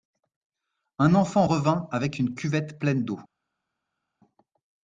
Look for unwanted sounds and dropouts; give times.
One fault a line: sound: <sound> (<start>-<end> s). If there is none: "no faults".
no faults